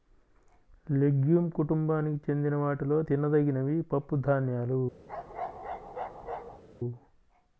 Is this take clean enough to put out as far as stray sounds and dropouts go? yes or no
no